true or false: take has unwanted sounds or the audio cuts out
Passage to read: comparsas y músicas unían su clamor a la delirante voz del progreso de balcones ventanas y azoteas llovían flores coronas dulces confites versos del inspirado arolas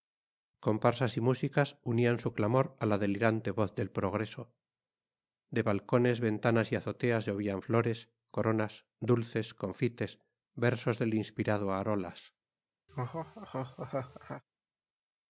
true